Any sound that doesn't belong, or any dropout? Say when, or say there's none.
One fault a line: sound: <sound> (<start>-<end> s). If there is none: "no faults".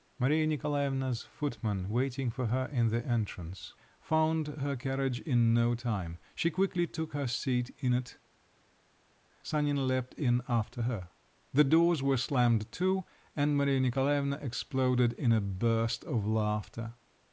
no faults